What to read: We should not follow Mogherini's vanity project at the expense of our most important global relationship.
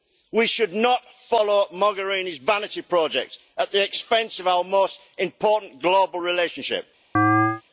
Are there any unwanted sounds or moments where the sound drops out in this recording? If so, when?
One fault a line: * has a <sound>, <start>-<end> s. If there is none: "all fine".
* has a chirp, 7.1-7.6 s